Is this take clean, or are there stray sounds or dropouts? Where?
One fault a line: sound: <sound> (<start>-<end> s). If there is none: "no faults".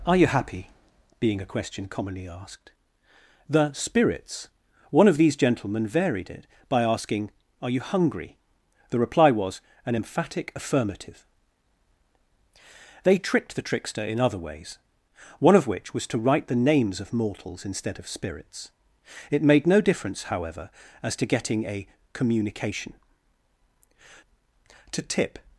no faults